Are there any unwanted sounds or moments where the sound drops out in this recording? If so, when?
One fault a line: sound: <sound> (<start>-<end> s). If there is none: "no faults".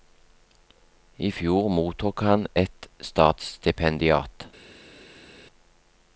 no faults